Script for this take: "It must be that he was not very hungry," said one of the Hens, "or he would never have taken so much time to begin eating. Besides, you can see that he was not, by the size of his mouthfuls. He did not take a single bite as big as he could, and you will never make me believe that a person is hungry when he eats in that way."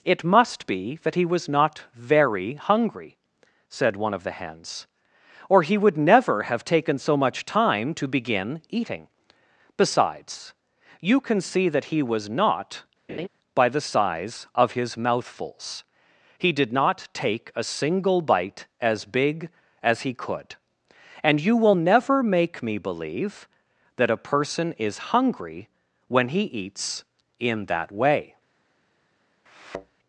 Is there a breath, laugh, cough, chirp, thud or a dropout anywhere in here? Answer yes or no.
yes